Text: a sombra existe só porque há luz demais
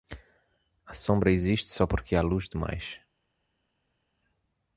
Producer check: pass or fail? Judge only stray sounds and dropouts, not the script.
pass